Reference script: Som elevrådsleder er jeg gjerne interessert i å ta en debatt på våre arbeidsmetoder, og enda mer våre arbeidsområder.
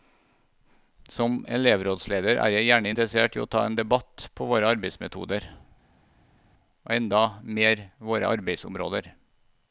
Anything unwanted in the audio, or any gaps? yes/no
no